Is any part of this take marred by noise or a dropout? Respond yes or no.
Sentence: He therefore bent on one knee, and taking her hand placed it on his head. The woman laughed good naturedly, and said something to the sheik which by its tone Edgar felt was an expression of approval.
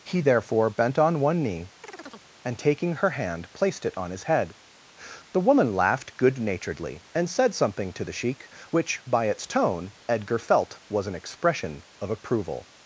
yes